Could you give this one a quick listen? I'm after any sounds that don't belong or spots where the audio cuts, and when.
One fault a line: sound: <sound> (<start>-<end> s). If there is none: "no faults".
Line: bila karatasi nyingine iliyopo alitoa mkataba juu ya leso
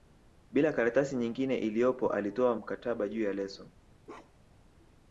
sound: bark (4.0-4.6 s)